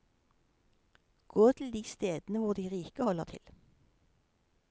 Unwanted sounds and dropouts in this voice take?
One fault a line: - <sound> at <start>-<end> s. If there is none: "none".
none